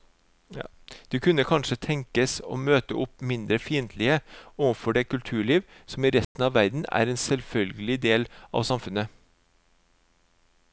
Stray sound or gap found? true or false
true